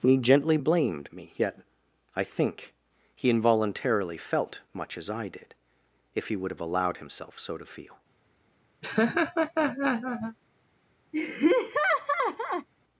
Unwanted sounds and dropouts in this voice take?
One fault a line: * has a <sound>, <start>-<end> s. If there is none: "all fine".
* has a laugh, 8.8-10.4 s
* has a laugh, 11.1-12.7 s